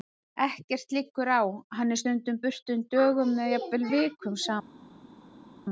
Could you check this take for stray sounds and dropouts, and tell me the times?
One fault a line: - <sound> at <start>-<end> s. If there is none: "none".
none